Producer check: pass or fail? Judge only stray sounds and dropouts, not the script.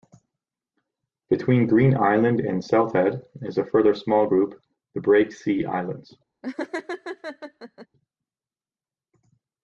fail